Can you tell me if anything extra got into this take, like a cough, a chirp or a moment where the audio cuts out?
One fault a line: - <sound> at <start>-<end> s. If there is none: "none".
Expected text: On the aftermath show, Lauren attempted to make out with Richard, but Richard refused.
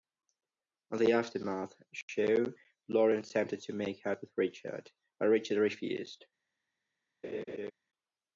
- laugh at 7.2-7.7 s